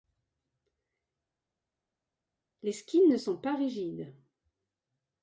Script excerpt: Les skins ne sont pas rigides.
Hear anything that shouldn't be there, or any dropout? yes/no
no